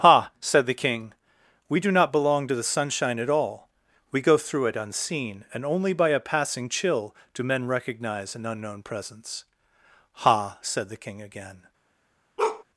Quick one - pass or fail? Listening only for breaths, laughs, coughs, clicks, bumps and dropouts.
fail